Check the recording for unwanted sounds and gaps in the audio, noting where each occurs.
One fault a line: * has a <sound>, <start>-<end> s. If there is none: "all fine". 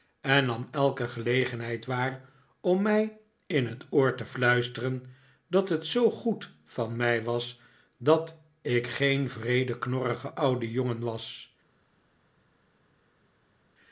all fine